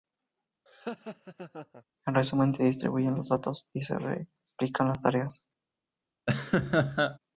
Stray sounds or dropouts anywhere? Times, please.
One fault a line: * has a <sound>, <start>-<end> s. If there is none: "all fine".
* has a laugh, 0.7-1.8 s
* has a laugh, 6.3-7.2 s